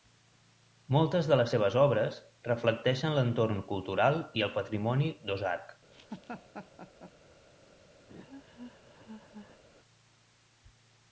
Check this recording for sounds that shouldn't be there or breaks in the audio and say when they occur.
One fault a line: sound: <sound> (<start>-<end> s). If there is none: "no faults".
sound: laugh (5.9-7.1 s)
sound: laugh (8.1-9.6 s)